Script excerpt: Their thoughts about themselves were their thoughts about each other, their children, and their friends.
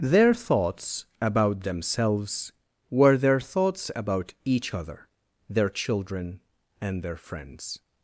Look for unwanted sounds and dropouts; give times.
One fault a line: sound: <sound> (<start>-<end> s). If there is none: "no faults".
no faults